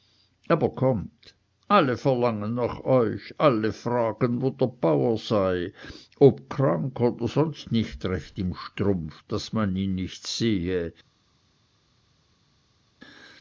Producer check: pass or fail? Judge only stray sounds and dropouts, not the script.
pass